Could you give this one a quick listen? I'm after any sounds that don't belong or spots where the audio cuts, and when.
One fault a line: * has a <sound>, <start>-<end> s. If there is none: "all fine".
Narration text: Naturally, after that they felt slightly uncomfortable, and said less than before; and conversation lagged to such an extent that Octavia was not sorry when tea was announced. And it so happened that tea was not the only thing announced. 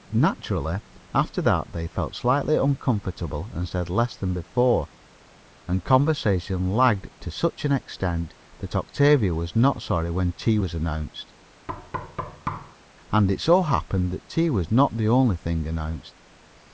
* has a thud, 11.7-12.8 s